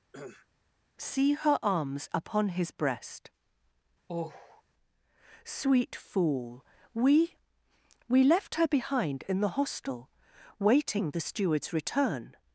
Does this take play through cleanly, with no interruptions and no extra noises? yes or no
no